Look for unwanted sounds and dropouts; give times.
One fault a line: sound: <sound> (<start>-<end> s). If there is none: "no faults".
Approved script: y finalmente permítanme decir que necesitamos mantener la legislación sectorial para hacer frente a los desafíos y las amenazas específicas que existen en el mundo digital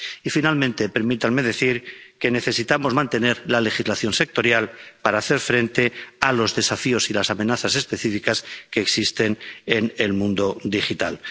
no faults